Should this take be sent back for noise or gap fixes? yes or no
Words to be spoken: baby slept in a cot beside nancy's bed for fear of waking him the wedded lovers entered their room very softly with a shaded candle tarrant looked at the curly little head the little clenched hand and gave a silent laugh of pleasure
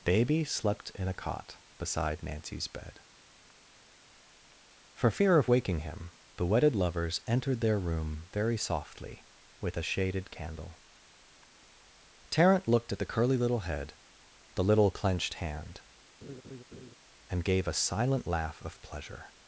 yes